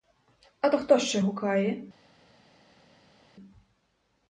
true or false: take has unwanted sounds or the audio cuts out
false